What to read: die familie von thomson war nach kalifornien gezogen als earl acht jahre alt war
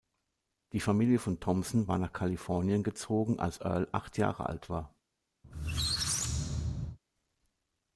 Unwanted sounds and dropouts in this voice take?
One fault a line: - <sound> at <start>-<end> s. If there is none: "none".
- squeak at 5.4-7.0 s